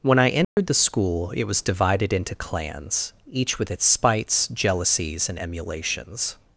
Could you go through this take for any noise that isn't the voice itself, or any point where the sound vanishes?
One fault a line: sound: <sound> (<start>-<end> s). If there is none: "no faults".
sound: dropout (0.4-0.6 s)